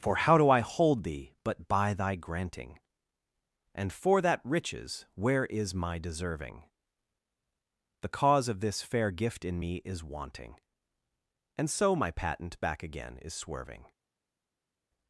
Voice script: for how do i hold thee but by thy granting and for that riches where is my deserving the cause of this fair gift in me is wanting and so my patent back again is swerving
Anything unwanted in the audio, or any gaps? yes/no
no